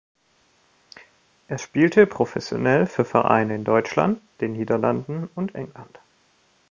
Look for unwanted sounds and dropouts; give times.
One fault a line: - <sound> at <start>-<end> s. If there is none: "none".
none